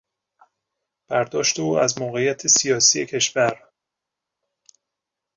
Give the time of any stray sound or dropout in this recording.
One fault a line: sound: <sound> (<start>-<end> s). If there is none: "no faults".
no faults